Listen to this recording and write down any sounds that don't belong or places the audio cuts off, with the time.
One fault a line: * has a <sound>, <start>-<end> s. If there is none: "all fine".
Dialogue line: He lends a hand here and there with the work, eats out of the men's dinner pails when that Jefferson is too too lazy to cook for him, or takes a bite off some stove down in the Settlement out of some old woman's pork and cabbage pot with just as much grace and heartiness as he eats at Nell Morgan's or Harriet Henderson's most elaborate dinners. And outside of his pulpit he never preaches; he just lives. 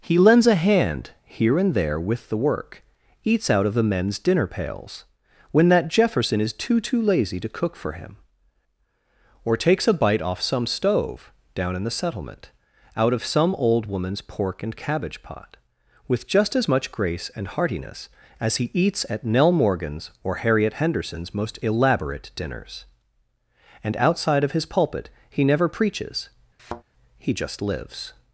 * has a thud, 26.6-26.8 s